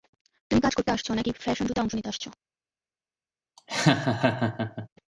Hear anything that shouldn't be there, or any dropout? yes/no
yes